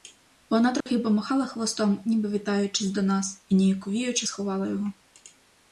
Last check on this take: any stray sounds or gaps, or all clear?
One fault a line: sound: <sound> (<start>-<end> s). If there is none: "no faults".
sound: dropout (0.8-0.9 s)